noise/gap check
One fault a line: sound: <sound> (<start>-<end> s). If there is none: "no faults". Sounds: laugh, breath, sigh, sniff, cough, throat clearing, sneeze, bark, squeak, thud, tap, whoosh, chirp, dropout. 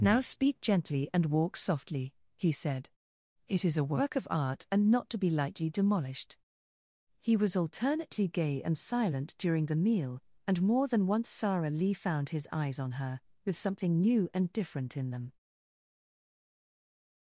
no faults